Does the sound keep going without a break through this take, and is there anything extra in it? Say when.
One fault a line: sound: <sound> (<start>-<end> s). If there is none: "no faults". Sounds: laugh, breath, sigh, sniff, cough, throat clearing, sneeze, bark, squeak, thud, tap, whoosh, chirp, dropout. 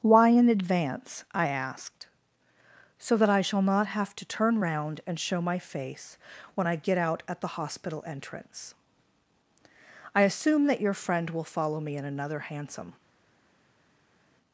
no faults